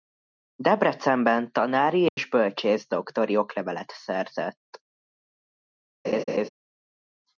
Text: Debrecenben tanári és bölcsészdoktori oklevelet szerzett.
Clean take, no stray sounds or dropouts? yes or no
no